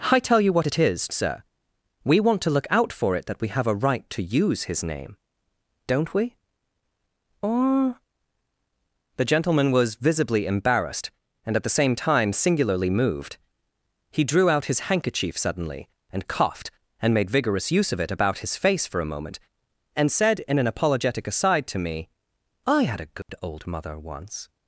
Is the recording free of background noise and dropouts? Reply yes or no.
no